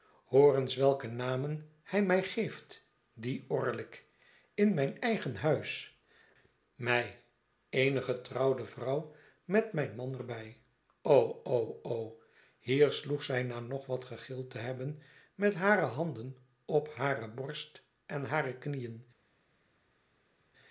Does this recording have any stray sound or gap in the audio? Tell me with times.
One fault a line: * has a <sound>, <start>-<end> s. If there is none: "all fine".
all fine